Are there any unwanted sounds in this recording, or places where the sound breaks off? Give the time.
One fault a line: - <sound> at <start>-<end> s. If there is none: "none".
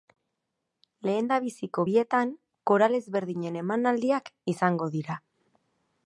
none